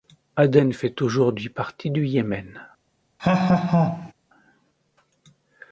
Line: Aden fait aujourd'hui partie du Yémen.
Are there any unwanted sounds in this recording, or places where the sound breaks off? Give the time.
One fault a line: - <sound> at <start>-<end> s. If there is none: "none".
- laugh at 3.2-4.1 s